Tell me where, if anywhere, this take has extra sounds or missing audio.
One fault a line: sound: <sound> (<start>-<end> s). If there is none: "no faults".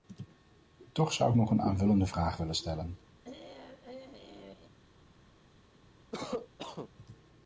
sound: throat clearing (3.2-4.7 s)
sound: cough (6.1-6.9 s)